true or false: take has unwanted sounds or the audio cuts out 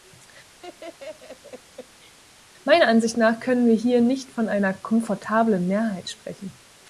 true